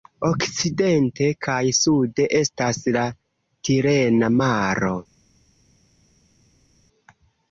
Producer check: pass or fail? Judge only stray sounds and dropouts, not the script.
pass